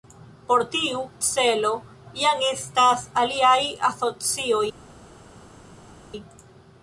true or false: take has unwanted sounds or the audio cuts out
false